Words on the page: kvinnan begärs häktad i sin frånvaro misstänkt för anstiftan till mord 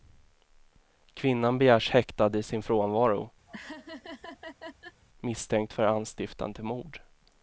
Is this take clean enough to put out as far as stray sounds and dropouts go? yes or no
no